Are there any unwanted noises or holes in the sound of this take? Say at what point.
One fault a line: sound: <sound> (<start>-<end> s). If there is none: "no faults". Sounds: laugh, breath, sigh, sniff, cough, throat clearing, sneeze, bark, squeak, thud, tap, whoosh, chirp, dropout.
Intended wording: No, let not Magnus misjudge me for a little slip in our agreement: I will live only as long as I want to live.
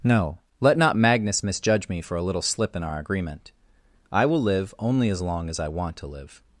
no faults